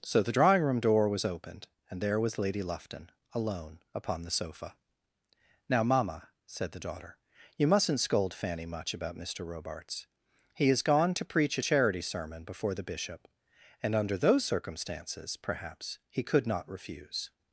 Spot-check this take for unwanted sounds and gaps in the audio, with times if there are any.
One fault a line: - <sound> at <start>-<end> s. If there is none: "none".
none